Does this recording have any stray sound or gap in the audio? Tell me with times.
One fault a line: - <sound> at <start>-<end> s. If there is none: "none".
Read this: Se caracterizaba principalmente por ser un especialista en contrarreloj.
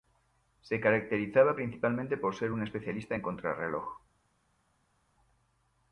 none